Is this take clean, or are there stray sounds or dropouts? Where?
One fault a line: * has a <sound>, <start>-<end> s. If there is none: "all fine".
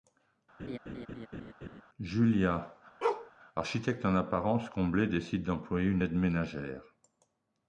* has a laugh, 0.6-1.8 s
* has a bark, 3.0-3.3 s